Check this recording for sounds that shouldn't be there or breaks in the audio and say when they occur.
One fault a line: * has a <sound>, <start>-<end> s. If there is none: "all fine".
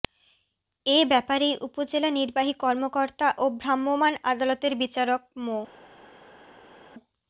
all fine